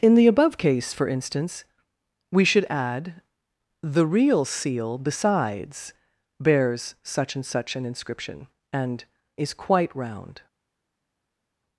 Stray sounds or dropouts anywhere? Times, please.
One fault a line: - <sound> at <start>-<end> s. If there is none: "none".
none